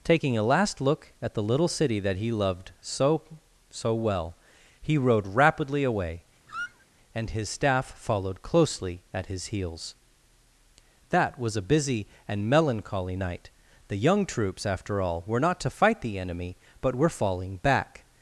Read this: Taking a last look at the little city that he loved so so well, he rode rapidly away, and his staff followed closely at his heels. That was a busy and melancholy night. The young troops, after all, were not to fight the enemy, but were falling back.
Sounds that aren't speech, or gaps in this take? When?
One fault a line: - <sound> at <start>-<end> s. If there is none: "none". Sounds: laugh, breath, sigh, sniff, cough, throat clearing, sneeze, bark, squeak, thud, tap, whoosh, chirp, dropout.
- squeak at 6.5-6.9 s